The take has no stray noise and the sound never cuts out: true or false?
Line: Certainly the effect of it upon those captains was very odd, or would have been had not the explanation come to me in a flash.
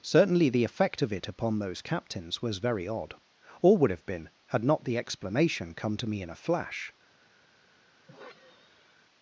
false